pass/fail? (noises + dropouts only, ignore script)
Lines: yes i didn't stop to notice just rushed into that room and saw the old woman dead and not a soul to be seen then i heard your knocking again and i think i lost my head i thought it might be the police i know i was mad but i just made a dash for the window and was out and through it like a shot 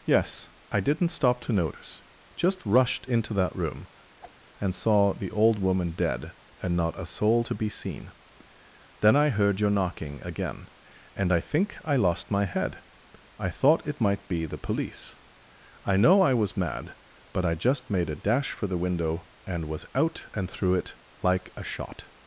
fail